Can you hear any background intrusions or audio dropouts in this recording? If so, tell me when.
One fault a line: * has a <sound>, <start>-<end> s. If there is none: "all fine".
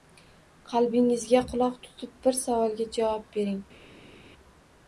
all fine